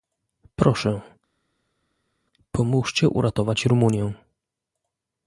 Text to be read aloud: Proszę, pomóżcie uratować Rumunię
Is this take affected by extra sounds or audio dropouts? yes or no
no